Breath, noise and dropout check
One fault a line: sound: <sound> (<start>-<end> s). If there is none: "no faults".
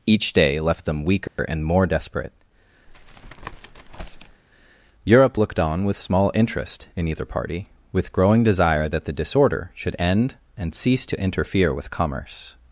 sound: dropout (1.3-1.4 s)
sound: tap (2.9-4.4 s)